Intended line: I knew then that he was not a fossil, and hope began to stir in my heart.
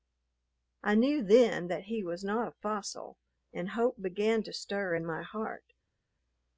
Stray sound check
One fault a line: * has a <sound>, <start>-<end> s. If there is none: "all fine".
all fine